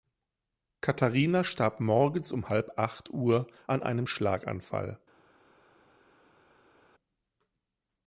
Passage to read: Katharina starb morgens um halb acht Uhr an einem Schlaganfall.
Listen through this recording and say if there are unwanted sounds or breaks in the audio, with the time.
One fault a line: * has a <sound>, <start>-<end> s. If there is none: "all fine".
all fine